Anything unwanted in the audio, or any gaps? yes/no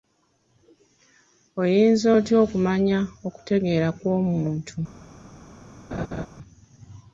yes